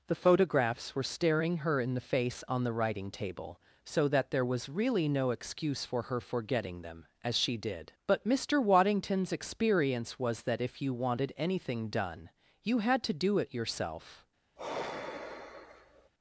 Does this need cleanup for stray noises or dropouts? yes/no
yes